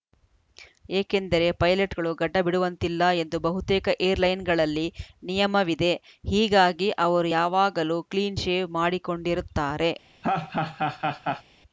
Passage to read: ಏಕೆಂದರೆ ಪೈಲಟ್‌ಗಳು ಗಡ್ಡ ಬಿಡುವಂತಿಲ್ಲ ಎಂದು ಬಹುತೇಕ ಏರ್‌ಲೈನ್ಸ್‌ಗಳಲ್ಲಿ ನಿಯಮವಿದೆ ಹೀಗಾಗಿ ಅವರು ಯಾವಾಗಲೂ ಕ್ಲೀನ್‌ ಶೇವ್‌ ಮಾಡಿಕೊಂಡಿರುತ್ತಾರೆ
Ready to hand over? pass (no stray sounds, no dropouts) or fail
fail